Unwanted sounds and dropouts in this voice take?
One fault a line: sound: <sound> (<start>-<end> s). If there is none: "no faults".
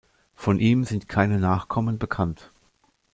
no faults